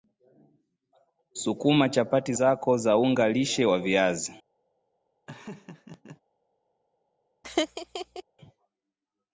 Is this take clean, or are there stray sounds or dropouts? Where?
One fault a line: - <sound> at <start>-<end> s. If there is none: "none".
- laugh at 5.3-6.2 s
- laugh at 7.4-8.2 s